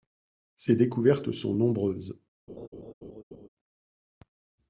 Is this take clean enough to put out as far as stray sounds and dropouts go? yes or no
no